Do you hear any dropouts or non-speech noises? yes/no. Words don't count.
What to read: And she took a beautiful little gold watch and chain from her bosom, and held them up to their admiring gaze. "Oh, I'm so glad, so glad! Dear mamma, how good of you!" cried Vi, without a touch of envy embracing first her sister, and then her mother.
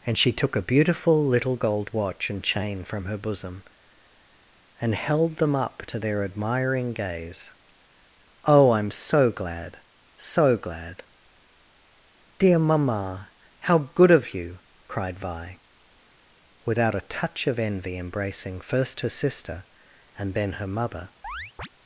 yes